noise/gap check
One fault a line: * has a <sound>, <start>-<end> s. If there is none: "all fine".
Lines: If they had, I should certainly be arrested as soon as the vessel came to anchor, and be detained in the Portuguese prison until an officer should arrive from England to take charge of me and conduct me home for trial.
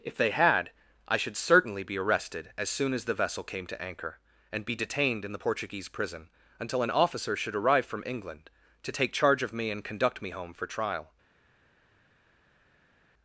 all fine